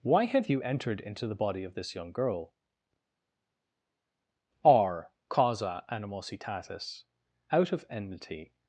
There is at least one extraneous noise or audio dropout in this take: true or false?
false